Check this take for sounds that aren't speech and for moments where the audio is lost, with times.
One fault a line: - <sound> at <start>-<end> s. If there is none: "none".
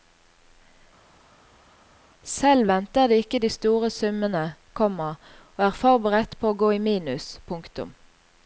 none